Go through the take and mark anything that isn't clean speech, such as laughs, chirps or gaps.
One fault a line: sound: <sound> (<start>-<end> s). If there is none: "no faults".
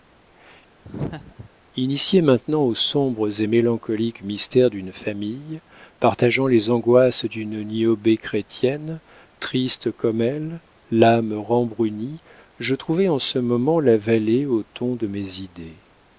sound: laugh (0.8-1.5 s)